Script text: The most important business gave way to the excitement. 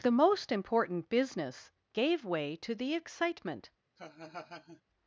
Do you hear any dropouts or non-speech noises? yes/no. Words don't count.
yes